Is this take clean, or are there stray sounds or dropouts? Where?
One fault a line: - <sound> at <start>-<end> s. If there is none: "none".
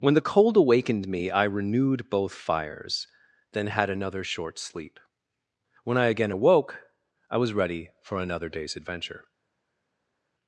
none